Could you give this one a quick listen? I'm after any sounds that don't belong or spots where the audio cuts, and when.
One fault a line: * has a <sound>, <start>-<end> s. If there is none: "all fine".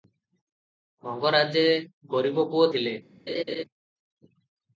* has a laugh, 3.3-3.6 s